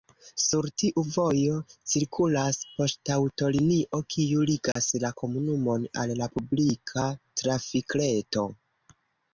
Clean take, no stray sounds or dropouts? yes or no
no